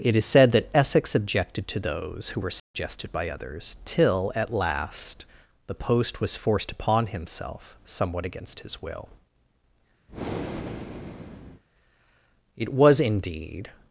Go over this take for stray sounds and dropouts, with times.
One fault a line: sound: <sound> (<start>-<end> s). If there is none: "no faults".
sound: dropout (2.6-2.7 s)
sound: breath (10.1-11.6 s)